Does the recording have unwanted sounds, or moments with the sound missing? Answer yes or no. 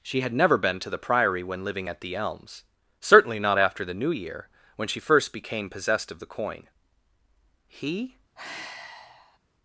yes